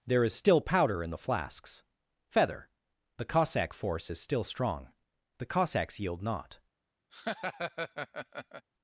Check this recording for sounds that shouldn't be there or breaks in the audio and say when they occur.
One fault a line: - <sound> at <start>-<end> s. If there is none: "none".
- laugh at 7.1-8.6 s